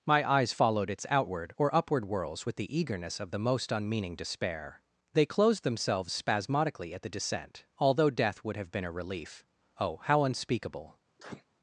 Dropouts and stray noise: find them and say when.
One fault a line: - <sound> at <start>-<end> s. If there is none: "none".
- sneeze at 11.2-11.5 s